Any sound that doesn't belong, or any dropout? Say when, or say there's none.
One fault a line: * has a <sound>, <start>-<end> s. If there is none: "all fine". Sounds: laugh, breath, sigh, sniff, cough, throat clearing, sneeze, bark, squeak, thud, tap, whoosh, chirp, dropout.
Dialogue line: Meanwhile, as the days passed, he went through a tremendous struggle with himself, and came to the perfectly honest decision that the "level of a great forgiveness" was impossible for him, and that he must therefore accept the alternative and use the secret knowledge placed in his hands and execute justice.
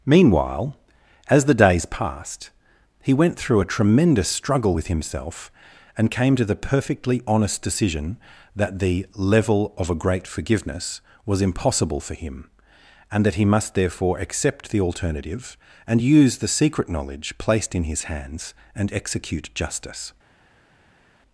all fine